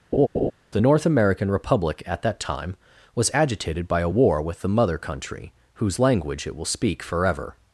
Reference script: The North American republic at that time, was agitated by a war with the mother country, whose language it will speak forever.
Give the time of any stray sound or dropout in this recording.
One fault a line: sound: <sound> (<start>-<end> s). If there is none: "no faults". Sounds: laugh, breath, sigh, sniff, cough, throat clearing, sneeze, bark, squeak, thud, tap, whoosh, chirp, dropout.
sound: laugh (0.1-0.5 s)